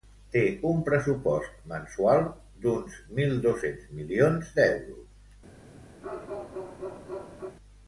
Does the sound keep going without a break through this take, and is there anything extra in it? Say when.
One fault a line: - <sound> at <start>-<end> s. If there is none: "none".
- bark at 6.0-7.6 s